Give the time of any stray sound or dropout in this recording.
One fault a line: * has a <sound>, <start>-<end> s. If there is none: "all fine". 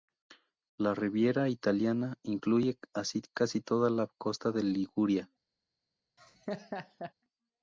* has a laugh, 6.2-7.1 s